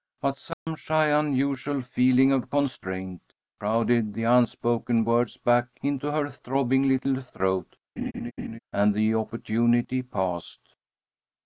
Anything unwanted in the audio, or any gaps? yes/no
yes